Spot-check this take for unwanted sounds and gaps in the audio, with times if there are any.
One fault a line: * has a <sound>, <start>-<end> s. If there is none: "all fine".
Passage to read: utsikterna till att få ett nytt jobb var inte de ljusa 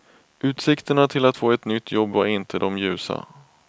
all fine